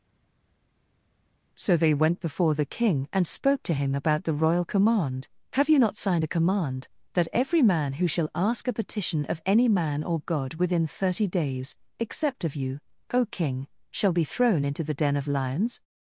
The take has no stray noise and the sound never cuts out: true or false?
true